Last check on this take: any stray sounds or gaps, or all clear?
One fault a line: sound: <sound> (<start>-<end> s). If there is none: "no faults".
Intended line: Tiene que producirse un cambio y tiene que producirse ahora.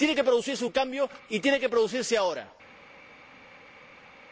no faults